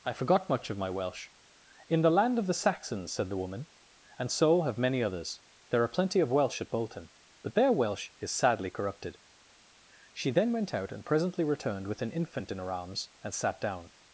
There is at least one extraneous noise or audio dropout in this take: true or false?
false